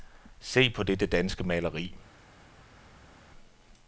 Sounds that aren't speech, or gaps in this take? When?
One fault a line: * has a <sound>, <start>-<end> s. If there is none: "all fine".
all fine